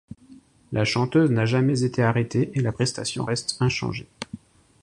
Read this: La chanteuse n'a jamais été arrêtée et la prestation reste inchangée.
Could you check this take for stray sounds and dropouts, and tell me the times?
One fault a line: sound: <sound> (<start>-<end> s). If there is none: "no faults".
no faults